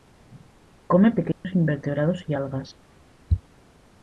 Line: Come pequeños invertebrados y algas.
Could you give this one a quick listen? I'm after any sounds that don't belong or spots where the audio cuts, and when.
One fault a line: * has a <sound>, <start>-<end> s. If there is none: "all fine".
* has a dropout, 1.3-1.4 s